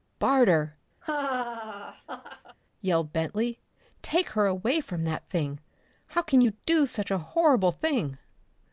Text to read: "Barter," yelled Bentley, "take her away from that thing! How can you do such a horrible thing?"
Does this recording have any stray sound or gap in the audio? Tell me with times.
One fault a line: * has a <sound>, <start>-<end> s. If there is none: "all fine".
* has a laugh, 1.0-2.6 s